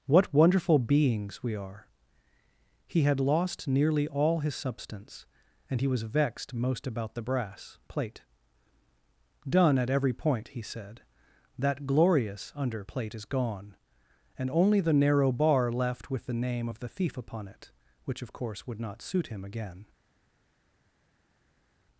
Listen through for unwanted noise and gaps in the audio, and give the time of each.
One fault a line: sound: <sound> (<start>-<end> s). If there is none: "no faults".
no faults